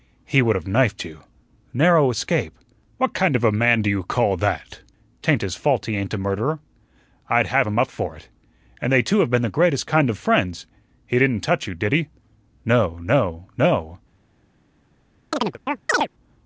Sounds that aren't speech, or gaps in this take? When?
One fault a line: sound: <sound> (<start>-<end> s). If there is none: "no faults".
sound: chirp (15.3-16.1 s)